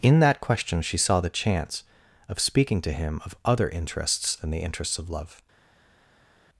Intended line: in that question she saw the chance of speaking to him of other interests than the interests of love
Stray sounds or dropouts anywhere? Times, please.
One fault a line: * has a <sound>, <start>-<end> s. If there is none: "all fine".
all fine